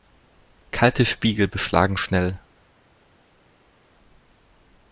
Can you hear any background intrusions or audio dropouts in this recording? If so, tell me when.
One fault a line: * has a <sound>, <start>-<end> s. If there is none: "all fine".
all fine